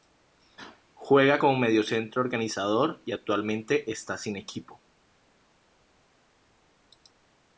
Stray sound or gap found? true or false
false